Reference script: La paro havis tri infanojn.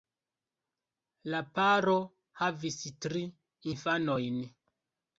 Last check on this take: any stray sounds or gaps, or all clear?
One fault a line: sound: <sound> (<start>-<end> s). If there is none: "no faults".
no faults